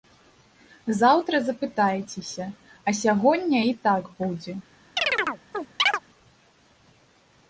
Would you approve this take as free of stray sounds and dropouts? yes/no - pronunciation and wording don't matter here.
no